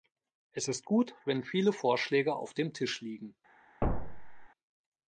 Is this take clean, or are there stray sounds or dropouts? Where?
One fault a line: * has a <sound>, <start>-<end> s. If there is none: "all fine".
* has a thud, 3.8-4.5 s